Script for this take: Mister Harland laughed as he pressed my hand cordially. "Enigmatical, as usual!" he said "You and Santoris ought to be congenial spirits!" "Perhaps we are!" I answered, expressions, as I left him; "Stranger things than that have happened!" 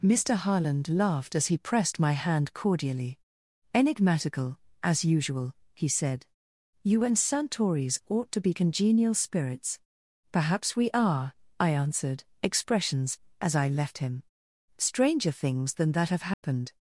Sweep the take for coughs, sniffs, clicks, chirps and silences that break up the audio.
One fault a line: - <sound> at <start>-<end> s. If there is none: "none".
- dropout at 16.3-16.4 s